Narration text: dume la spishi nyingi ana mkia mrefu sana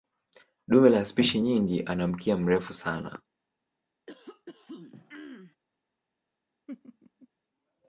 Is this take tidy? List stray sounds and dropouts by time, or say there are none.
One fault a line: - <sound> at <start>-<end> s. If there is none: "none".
- throat clearing at 4.1-5.6 s
- laugh at 6.7-7.3 s